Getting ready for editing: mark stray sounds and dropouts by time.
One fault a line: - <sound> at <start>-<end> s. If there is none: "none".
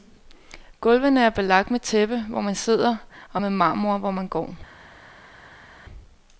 none